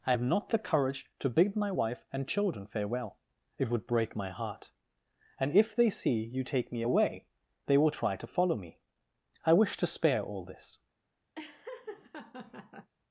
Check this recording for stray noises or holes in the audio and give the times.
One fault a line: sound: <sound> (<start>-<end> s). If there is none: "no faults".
sound: laugh (11.4-12.9 s)